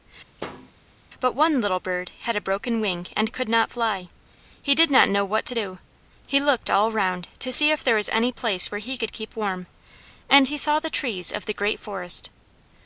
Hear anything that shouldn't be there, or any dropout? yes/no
yes